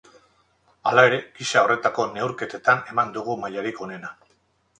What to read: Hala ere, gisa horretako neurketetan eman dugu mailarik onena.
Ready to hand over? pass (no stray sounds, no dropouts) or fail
pass